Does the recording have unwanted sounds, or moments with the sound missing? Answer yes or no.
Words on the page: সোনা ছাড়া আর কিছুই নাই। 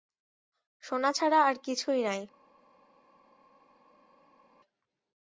no